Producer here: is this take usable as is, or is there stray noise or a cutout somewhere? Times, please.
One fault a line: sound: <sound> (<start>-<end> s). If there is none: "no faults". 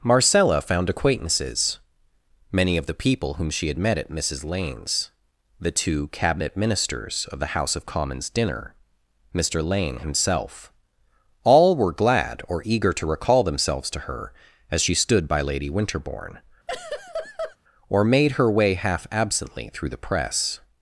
sound: laugh (16.7-17.6 s)